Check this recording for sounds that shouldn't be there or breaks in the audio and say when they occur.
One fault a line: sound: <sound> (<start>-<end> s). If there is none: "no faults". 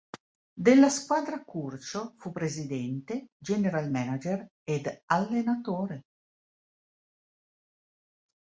no faults